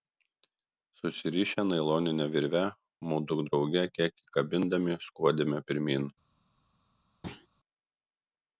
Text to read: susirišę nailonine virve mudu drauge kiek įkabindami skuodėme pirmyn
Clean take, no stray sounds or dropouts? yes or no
no